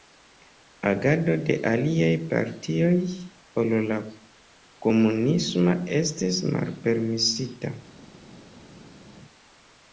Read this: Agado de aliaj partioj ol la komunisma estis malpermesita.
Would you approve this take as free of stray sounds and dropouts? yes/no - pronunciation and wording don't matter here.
yes